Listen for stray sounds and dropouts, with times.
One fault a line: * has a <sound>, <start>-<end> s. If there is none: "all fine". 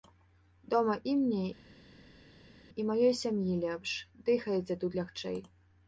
all fine